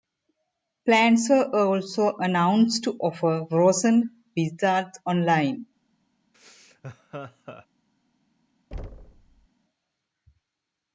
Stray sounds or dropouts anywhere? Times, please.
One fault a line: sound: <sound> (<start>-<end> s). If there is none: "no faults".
sound: laugh (6.3-7.7 s)
sound: thud (8.7-9.5 s)